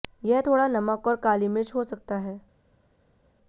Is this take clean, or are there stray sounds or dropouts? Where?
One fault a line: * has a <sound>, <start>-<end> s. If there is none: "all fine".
all fine